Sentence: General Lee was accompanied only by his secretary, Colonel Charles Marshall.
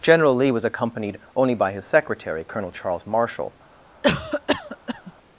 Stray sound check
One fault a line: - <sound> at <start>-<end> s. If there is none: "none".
- cough at 4.0-5.1 s